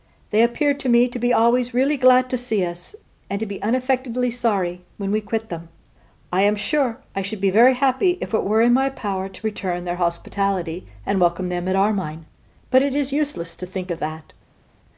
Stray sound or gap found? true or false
false